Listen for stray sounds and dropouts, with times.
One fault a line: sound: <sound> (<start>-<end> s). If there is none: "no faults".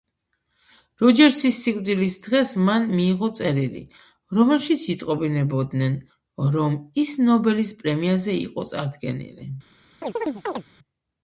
sound: chirp (10.0-10.6 s)